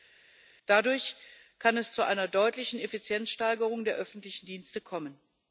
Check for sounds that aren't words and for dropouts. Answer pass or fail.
pass